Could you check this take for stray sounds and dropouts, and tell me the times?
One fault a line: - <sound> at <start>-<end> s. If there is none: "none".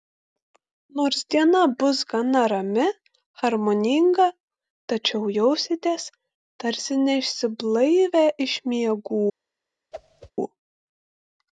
- whoosh at 9.9-10.3 s